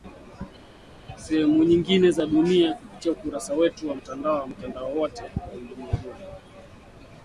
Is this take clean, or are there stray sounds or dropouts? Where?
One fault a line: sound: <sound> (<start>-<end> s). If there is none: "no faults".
no faults